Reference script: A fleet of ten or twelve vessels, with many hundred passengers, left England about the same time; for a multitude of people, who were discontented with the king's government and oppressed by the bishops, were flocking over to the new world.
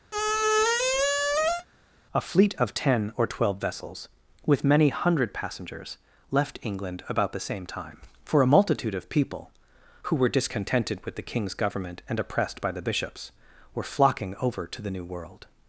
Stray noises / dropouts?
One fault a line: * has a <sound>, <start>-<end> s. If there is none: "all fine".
* has a squeak, 0.1-1.7 s